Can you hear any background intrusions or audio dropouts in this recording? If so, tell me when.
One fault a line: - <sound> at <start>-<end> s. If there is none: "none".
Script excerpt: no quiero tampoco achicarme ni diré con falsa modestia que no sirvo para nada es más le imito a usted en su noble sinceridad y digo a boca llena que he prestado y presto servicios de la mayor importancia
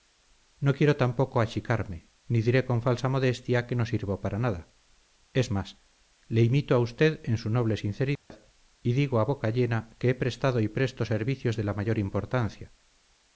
- dropout at 8.2-8.3 s